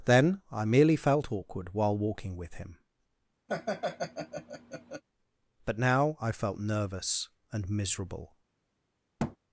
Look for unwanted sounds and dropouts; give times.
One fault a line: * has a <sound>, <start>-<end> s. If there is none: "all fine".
* has a laugh, 3.5-5.0 s
* has a thud, 9.2-9.4 s